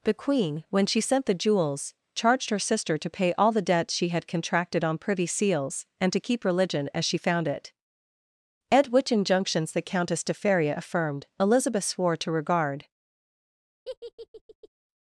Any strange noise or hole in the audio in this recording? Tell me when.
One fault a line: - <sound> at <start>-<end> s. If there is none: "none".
- laugh at 13.8-14.7 s